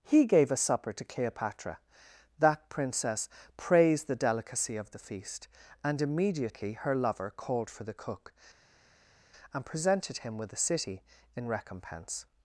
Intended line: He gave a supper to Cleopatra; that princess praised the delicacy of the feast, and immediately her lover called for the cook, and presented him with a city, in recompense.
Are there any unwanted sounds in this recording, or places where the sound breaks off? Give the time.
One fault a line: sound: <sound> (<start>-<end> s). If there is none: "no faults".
no faults